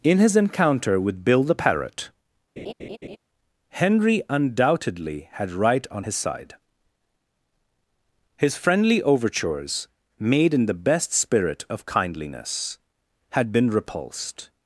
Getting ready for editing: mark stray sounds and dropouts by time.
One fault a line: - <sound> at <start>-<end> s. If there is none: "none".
- laugh at 2.6-3.2 s